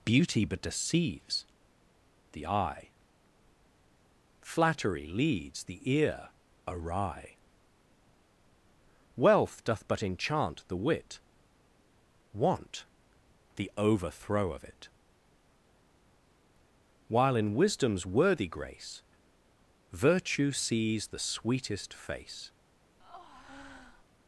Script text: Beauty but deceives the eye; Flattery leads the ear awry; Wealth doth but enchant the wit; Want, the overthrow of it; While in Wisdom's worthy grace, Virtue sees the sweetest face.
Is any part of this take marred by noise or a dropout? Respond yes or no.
yes